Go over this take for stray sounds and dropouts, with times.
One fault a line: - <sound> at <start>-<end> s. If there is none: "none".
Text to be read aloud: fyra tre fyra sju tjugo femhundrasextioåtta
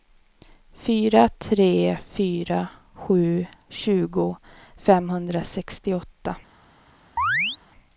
- chirp at 7.2-7.6 s